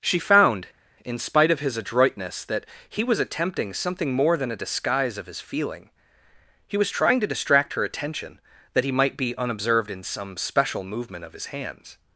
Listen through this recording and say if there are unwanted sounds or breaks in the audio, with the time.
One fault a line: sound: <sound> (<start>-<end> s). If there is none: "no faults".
no faults